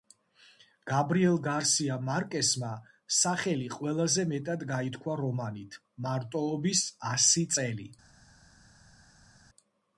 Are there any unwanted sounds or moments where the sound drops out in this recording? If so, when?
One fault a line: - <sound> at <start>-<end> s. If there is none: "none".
none